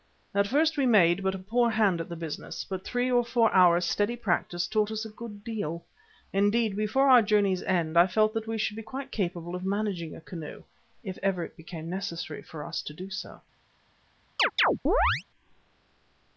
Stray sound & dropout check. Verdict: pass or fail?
fail